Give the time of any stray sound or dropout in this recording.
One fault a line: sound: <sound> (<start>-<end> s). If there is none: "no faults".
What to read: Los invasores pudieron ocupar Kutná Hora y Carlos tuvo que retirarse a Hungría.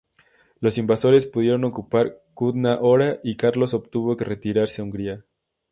no faults